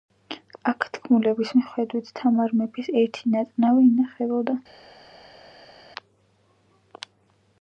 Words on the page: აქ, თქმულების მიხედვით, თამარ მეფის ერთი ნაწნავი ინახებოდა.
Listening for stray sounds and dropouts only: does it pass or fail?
pass